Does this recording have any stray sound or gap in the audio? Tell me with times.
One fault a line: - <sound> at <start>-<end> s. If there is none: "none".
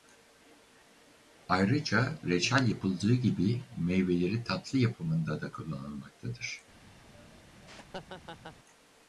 - laugh at 7.1-8.6 s